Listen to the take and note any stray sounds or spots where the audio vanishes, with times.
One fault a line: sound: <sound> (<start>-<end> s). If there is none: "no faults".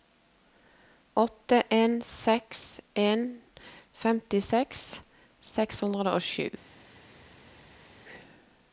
no faults